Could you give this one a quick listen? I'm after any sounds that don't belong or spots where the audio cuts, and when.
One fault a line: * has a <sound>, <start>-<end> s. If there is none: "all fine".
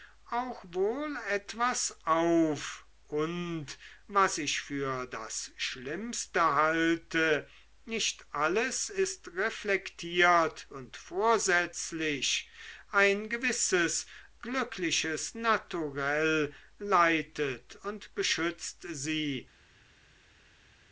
all fine